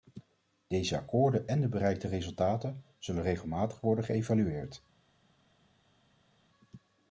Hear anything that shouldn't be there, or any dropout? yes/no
no